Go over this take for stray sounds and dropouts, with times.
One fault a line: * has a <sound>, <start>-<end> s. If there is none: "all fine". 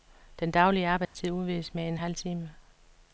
* has a dropout, 1.0-1.1 s